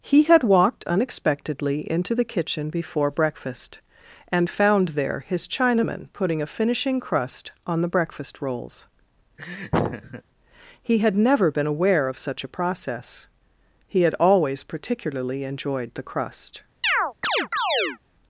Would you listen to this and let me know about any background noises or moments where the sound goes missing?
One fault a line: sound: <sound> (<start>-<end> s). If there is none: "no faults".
sound: laugh (9.4-10.2 s)
sound: chirp (16.8-18.0 s)